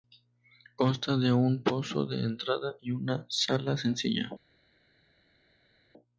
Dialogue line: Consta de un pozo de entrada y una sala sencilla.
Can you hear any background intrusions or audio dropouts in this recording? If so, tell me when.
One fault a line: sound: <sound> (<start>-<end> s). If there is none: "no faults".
no faults